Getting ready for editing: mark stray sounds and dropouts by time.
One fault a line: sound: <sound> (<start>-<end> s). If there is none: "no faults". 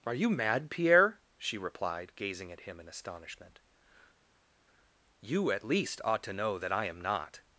no faults